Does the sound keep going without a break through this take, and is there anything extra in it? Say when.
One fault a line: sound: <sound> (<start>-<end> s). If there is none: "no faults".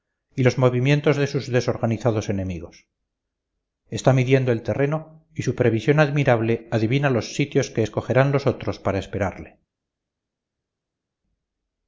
no faults